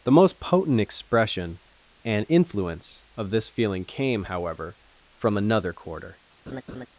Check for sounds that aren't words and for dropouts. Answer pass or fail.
fail